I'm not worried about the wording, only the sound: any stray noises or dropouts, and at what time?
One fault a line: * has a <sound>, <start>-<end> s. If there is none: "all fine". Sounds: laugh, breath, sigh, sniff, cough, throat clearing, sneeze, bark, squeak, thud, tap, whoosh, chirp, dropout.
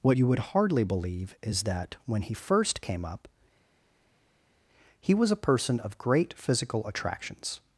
all fine